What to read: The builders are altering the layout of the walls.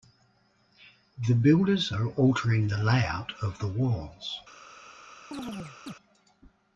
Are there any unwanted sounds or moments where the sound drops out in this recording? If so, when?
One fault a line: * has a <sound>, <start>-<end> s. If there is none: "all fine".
* has a chirp, 5.3-5.9 s